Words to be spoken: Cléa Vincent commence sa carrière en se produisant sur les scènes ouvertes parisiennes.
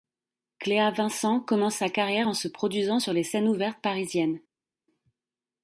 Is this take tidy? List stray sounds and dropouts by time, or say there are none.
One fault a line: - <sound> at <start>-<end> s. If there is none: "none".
none